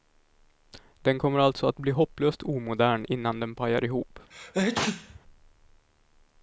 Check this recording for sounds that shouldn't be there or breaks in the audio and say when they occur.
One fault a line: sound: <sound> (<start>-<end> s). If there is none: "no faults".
sound: sneeze (4.3-5.2 s)